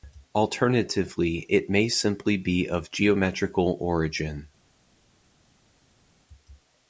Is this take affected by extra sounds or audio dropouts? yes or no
no